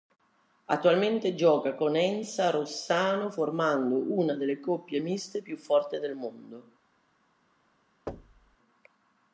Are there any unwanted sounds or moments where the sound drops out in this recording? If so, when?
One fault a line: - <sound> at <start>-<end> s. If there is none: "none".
- thud at 8.1-8.6 s